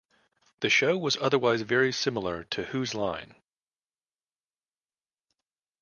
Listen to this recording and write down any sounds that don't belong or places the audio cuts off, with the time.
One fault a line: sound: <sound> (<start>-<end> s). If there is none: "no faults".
no faults